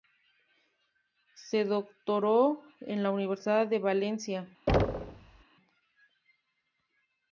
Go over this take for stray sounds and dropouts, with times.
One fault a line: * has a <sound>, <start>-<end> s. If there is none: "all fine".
* has a thud, 4.7-5.4 s